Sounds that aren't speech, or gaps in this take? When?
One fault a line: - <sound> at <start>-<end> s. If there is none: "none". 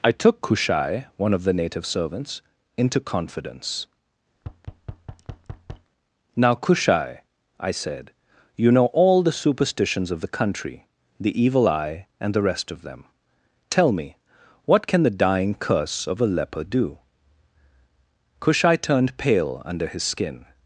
- thud at 4.4-5.9 s